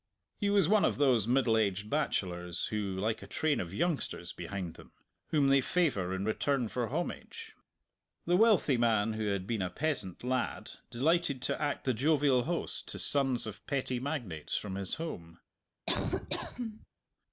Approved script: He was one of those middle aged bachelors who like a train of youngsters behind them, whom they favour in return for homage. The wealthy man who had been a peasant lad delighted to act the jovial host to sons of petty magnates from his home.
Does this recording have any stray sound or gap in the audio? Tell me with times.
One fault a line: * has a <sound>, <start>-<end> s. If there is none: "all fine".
* has a laugh, 15.9-16.9 s